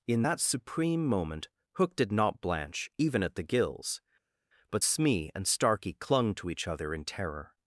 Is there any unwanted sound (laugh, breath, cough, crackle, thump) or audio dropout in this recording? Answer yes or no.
no